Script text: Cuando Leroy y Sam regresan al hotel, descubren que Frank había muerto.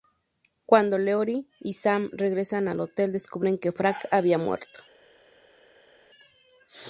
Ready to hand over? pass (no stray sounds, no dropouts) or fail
pass